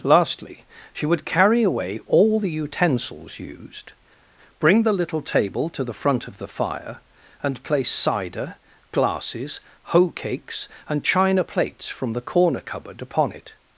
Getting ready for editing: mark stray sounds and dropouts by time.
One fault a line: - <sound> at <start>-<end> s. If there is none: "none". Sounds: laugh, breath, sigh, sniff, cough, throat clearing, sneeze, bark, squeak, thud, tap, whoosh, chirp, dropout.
none